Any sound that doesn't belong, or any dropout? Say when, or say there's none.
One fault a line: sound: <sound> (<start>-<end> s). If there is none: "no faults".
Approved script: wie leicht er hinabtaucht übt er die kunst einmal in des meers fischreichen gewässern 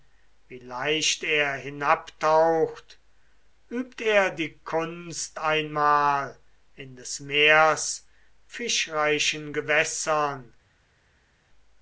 no faults